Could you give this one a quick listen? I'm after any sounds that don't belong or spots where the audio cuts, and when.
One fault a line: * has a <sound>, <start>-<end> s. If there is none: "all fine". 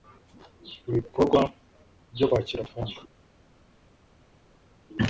all fine